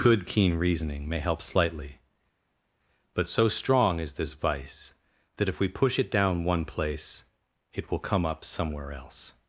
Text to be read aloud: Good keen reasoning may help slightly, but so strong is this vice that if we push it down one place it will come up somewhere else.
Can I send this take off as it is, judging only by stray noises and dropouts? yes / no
yes